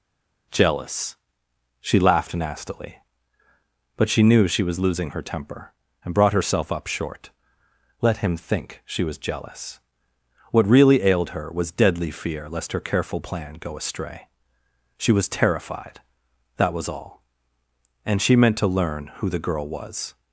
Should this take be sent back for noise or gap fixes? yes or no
no